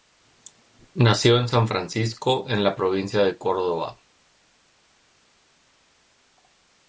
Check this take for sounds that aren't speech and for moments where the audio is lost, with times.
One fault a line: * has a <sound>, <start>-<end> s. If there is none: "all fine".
all fine